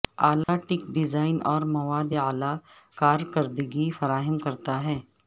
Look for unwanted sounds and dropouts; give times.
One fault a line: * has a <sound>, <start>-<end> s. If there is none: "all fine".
* has a dropout, 0.4-0.5 s